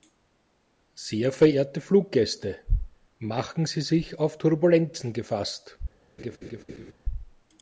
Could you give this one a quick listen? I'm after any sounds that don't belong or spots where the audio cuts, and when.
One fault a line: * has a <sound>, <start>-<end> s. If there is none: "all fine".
* has a laugh, 6.2-6.9 s